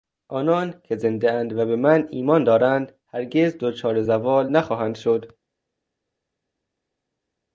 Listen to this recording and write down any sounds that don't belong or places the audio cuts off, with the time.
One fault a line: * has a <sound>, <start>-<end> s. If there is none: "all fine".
all fine